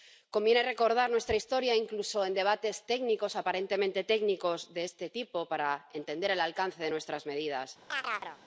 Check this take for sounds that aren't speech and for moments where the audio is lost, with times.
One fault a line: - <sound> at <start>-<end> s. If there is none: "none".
- chirp at 7.9-8.4 s